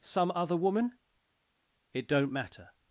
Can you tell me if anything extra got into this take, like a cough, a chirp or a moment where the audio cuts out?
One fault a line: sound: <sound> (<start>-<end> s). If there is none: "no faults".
no faults